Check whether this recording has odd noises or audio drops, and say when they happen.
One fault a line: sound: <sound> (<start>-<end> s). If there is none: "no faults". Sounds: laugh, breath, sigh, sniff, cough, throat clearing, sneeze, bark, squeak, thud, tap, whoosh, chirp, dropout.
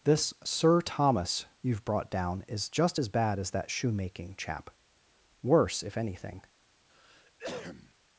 sound: cough (6.9-7.9 s)